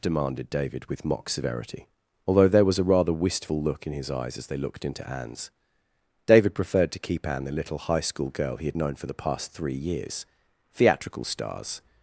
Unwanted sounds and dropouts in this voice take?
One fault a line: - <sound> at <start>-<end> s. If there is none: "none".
none